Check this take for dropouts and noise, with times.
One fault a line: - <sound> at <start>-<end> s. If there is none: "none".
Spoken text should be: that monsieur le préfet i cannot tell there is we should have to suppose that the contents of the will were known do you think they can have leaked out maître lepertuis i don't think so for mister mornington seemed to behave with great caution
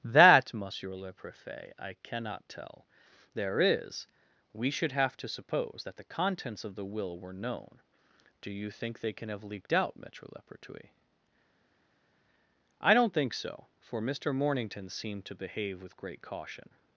none